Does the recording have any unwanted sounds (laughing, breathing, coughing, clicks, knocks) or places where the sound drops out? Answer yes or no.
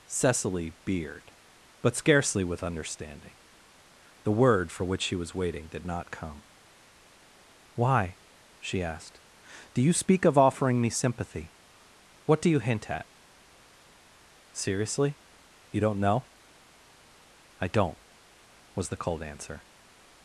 no